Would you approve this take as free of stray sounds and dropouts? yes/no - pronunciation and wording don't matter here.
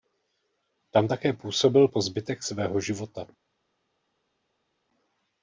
yes